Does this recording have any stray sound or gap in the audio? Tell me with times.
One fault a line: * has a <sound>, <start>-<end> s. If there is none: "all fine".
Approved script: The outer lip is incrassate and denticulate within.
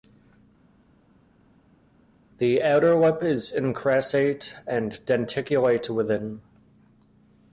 all fine